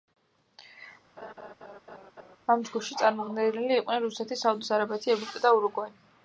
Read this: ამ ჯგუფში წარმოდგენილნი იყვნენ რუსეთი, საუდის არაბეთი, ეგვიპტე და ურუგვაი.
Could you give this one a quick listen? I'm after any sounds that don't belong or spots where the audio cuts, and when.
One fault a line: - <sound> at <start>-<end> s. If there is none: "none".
- laugh at 1.2-2.4 s